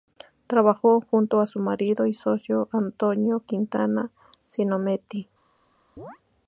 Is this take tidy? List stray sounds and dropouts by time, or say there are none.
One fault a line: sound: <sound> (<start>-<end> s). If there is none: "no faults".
sound: chirp (6.0-6.2 s)